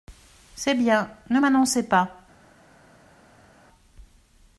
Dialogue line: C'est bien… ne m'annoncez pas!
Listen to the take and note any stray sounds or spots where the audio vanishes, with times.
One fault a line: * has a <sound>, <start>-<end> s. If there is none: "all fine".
all fine